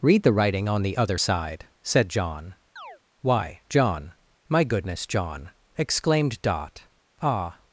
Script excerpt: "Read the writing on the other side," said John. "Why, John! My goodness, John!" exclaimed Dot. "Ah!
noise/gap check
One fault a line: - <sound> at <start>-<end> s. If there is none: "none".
- chirp at 2.8-3.0 s